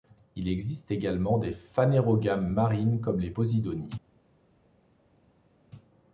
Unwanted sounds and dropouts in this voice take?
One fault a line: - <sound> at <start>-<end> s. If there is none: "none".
none